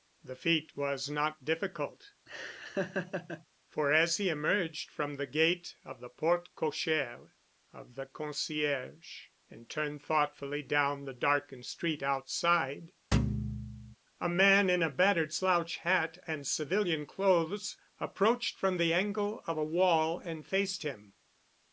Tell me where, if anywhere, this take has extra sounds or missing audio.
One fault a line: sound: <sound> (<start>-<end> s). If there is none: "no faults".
sound: laugh (2.3-3.5 s)
sound: thud (13.1-14.0 s)